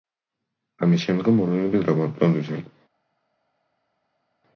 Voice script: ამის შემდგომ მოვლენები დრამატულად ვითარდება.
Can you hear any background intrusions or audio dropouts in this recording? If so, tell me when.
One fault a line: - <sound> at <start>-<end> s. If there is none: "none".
none